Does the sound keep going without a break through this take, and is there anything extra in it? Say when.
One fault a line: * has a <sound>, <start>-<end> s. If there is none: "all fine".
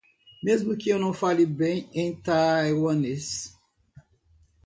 all fine